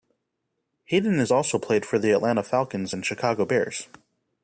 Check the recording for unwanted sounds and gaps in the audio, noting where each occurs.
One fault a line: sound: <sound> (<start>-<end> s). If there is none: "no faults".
no faults